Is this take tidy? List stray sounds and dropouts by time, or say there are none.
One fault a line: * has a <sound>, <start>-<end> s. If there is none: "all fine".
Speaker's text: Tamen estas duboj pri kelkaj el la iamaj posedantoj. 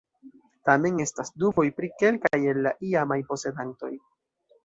* has a dropout, 1.5-1.6 s